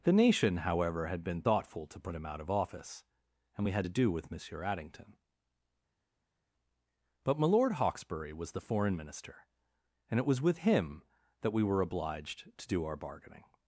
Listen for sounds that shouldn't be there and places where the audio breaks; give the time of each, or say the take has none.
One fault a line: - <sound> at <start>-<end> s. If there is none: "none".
none